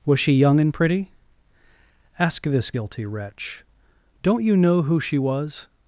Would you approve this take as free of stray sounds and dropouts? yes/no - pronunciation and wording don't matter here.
yes